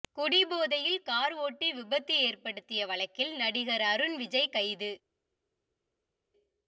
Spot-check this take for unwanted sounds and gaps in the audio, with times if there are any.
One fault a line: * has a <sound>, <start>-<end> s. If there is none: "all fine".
all fine